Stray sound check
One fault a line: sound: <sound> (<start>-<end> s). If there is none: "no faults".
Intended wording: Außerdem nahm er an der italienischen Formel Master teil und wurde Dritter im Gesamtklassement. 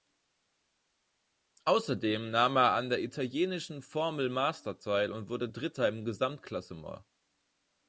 no faults